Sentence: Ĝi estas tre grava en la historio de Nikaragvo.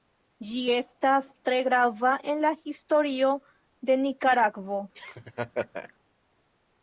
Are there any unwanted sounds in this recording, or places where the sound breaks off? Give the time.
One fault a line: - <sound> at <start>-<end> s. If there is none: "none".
- laugh at 4.9-5.9 s